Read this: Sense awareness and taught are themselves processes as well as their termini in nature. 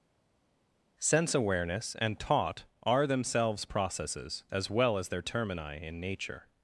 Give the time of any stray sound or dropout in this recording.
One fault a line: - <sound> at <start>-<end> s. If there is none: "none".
none